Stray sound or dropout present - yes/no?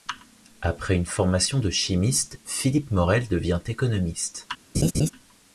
yes